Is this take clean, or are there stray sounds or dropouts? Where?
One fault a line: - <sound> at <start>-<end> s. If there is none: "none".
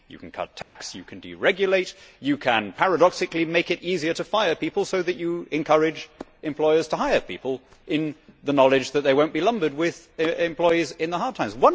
- dropout at 0.6-0.8 s